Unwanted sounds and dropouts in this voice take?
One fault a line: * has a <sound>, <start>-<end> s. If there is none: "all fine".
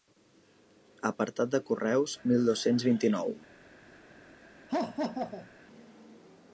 * has a laugh, 4.7-5.5 s